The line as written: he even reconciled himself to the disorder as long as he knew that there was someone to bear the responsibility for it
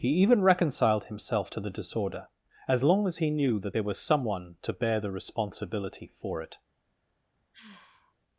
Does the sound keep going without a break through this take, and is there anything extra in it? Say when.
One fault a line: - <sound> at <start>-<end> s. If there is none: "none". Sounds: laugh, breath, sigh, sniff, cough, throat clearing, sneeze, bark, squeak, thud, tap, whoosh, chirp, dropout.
- sigh at 7.5-8.1 s